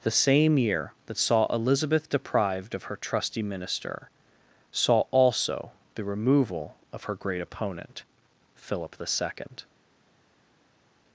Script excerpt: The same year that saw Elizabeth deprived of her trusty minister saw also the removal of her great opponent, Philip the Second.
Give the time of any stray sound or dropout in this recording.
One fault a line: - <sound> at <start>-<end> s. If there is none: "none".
none